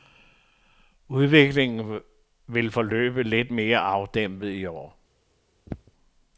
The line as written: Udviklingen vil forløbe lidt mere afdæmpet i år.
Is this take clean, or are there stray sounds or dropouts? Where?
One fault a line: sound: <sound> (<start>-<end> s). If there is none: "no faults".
sound: throat clearing (5.7-5.9 s)